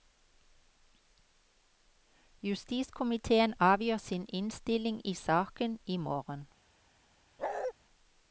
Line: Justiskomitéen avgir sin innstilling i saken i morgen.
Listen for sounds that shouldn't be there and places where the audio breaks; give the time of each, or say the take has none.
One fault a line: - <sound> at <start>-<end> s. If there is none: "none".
- bark at 7.4-7.7 s